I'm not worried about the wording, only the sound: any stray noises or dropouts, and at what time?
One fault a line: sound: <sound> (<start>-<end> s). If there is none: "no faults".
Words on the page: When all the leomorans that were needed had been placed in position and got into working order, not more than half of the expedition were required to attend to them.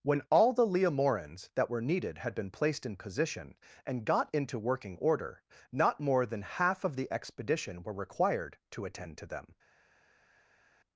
no faults